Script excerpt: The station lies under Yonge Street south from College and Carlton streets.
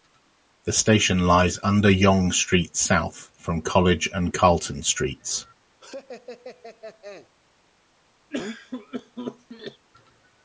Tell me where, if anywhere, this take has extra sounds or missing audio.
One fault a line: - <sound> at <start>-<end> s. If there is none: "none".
- laugh at 5.8-7.3 s
- cough at 8.3-9.9 s